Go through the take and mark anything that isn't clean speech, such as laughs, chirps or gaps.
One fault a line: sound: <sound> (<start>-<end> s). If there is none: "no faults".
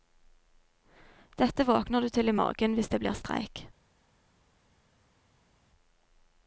no faults